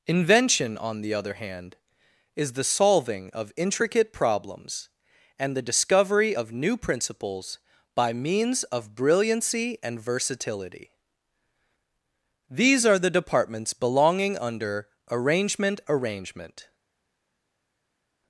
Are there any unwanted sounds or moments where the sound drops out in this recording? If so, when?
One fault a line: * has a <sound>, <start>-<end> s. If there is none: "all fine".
all fine